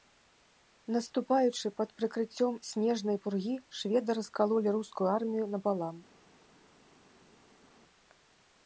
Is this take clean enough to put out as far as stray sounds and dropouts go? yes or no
yes